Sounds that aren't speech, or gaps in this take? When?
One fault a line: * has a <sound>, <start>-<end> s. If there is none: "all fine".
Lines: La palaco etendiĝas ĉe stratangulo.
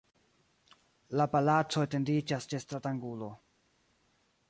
all fine